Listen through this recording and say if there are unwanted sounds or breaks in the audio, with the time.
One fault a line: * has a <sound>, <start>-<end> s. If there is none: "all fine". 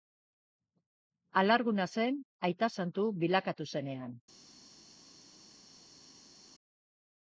all fine